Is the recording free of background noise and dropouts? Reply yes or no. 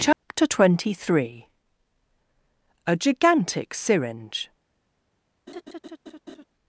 no